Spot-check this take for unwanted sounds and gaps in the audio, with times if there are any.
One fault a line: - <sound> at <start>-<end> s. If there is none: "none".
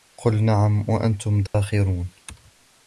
- dropout at 1.5-1.5 s